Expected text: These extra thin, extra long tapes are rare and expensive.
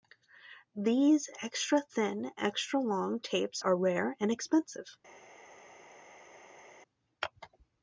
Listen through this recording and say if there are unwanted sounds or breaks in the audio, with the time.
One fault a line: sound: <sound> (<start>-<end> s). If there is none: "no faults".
no faults